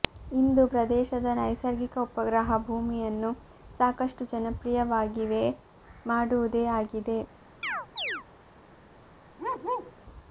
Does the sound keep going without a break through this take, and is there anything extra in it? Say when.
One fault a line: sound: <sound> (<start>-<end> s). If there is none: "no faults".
sound: chirp (7.6-8.2 s)
sound: bark (9.4-9.9 s)